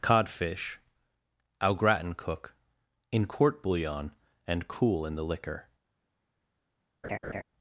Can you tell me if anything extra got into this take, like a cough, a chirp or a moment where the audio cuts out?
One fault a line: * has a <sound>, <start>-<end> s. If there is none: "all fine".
* has a laugh, 7.0-7.4 s